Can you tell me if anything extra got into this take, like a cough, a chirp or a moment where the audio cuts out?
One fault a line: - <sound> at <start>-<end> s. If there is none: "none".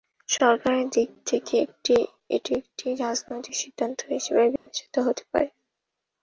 - dropout at 4.6-4.7 s